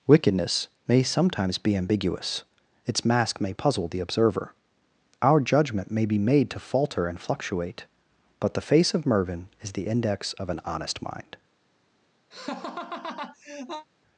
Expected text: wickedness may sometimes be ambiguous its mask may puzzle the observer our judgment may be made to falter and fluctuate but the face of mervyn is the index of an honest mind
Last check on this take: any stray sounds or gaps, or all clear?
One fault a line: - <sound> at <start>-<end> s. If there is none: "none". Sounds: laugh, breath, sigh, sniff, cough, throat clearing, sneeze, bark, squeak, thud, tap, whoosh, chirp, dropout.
- laugh at 12.3-13.9 s